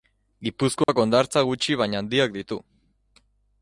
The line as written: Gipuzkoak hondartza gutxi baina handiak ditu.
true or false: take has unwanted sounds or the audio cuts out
true